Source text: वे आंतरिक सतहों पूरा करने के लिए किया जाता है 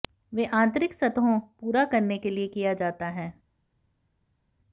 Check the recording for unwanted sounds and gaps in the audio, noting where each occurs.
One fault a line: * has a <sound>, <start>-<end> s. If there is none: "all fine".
all fine